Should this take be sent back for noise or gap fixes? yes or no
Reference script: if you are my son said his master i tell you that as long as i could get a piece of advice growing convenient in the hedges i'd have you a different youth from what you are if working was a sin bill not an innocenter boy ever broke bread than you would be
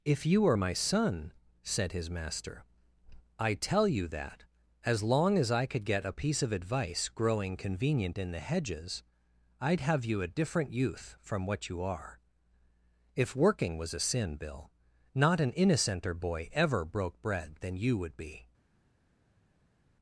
no